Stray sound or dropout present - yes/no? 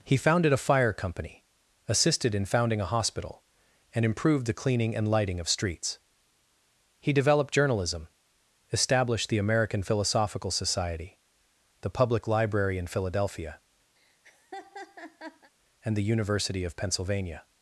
yes